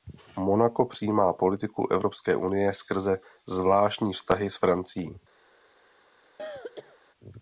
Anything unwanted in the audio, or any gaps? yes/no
yes